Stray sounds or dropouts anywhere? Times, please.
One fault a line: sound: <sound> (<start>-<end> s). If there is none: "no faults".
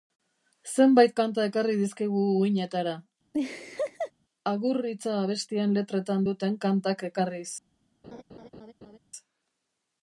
sound: laugh (3.3-4.1 s)
sound: laugh (8.0-9.0 s)